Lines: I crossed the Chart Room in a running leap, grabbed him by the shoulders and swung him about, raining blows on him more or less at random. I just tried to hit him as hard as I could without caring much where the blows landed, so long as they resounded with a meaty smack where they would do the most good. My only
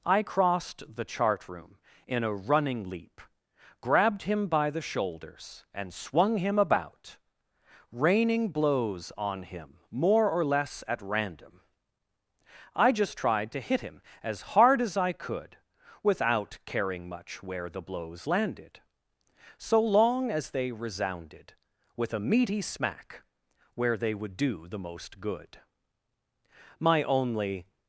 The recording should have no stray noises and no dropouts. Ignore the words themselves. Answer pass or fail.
pass